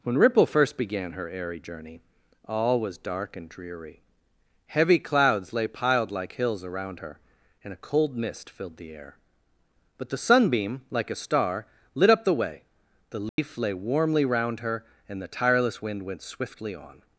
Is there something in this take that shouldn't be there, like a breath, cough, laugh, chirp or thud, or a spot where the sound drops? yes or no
yes